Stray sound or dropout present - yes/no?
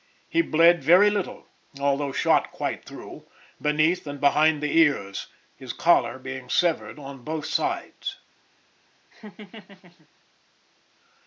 yes